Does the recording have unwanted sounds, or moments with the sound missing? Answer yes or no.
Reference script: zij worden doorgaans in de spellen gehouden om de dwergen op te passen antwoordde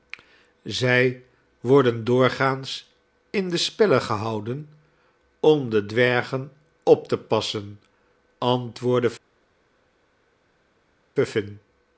no